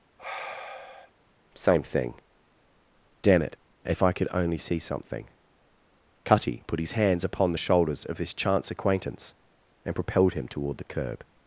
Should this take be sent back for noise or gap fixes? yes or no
yes